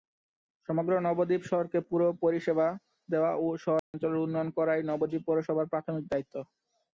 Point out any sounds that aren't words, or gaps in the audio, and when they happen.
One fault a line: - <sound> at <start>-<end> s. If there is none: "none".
- dropout at 3.8-3.9 s